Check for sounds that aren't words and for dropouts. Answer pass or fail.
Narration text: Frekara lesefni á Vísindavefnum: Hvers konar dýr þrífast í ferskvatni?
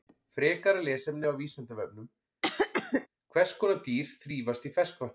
fail